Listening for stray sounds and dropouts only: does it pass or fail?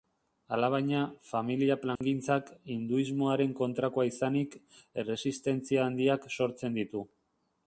fail